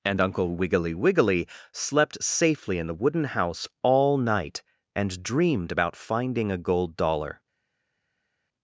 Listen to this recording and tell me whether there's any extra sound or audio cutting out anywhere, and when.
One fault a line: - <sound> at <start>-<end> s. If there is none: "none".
none